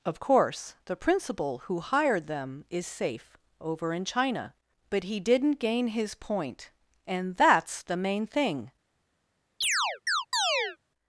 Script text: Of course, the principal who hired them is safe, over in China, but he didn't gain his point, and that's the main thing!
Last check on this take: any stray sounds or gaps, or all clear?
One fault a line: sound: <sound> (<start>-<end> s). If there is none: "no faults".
sound: chirp (9.6-10.8 s)